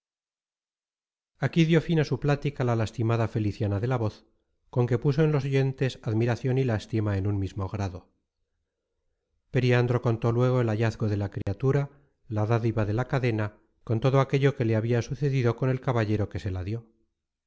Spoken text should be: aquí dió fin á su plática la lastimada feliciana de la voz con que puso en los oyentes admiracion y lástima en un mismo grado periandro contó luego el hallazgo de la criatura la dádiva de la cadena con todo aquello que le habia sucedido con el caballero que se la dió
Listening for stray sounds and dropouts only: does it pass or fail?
fail